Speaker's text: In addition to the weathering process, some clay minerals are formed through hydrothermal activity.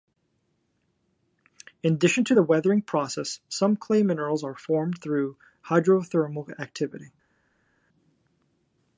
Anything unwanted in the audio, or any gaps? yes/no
no